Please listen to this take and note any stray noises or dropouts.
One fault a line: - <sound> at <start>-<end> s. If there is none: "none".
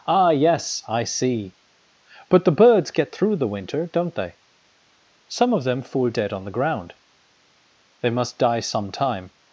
none